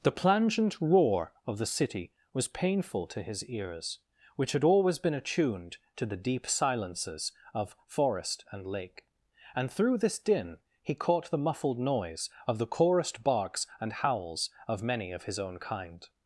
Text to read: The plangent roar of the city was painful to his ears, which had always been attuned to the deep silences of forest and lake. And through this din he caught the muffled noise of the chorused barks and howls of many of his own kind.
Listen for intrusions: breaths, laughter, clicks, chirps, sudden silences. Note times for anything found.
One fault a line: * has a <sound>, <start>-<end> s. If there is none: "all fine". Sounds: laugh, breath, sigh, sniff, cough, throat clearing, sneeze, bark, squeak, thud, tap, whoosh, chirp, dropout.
all fine